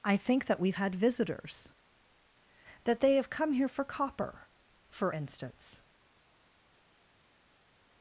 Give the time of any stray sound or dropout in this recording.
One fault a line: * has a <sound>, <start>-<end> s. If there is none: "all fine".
all fine